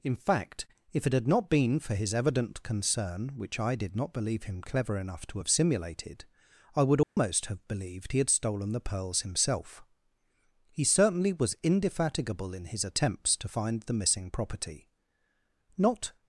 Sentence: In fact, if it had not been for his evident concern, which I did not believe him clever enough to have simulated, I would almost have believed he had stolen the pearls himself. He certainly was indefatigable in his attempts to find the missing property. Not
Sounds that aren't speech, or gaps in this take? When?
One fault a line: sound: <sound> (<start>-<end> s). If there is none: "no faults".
sound: dropout (7.0-7.2 s)